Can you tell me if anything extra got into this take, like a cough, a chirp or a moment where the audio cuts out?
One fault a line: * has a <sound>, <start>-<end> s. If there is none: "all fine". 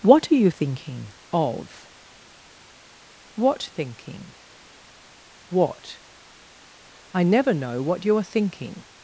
all fine